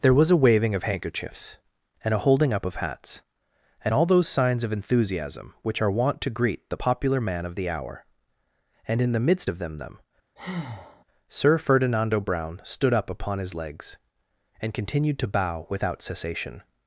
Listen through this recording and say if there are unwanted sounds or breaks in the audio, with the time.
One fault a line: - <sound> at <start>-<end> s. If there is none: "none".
- breath at 10.4-11.0 s